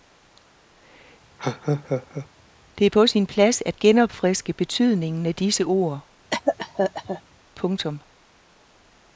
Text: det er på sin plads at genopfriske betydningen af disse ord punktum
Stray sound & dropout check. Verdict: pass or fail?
fail